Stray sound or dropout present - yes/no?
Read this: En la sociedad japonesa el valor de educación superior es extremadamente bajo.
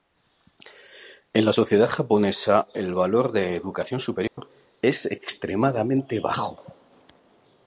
yes